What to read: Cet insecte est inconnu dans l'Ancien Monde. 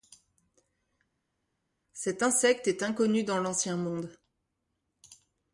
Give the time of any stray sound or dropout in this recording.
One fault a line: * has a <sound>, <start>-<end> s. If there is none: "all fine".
all fine